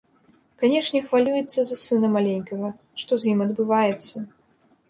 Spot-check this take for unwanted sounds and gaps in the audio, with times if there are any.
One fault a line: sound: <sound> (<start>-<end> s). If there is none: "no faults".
no faults